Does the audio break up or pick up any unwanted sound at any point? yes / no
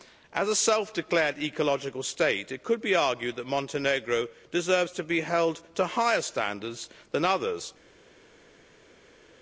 no